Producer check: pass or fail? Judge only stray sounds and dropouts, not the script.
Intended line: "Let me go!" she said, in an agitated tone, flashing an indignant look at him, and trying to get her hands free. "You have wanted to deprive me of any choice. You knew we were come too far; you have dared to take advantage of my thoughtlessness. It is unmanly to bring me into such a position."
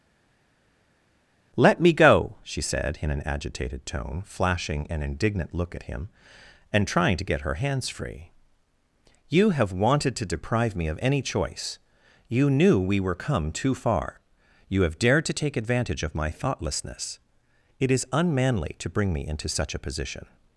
pass